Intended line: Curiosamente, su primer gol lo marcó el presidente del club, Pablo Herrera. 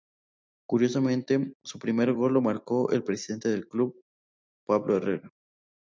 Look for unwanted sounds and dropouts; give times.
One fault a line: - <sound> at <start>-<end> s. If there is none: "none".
none